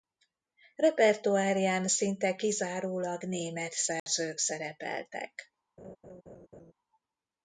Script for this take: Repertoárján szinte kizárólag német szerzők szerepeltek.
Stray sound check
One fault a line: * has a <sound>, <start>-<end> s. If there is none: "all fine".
* has a dropout, 4.0-4.1 s
* has a laugh, 5.8-6.7 s